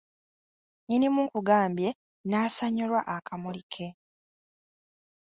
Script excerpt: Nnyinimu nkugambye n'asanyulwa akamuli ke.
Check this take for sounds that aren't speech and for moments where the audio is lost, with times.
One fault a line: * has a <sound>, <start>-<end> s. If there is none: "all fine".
all fine